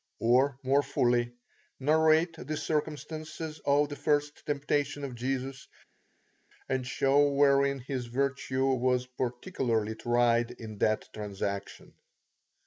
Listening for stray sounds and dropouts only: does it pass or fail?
pass